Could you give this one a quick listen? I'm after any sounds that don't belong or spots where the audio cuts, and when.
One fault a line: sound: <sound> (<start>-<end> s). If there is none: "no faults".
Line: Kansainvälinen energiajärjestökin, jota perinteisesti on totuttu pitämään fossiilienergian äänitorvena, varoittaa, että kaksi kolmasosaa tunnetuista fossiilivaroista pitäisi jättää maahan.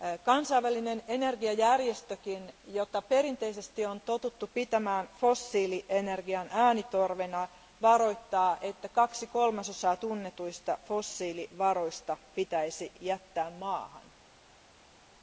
no faults